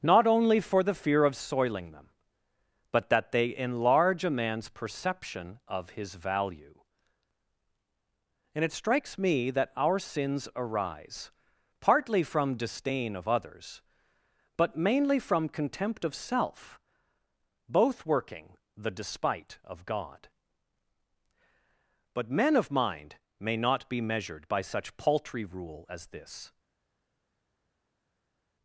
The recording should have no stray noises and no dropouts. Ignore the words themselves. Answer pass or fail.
pass